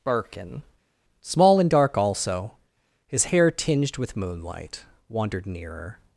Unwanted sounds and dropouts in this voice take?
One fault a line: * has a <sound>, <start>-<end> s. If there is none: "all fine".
all fine